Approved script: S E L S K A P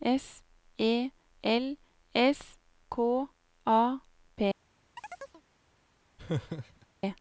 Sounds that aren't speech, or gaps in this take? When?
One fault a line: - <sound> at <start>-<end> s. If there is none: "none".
- chirp at 5.0-5.4 s
- laugh at 6.2-6.9 s